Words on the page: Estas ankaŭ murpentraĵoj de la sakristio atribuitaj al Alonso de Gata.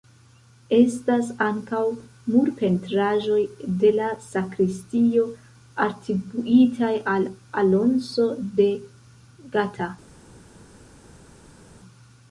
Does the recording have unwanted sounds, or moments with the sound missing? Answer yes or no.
no